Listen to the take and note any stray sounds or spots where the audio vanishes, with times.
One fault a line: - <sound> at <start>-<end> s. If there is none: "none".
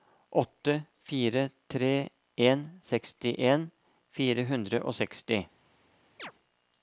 - chirp at 6.2-6.3 s